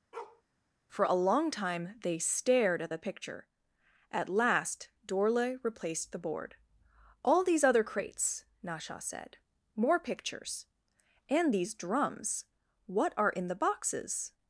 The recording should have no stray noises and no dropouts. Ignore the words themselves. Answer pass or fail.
fail